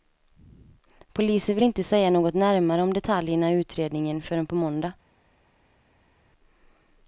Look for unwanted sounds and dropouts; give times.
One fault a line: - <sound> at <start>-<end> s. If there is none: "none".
none